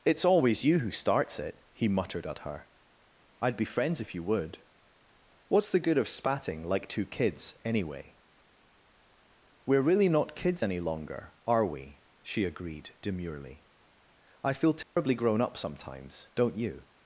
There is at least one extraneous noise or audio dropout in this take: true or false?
true